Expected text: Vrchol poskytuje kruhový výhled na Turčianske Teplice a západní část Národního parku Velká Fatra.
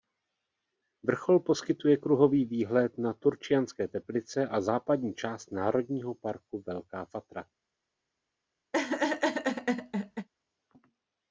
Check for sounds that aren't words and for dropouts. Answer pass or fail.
fail